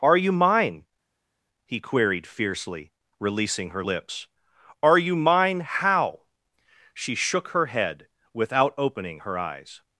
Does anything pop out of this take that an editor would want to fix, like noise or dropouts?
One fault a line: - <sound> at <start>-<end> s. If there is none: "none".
none